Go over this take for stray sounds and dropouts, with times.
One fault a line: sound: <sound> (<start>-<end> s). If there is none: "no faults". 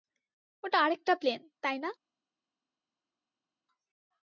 no faults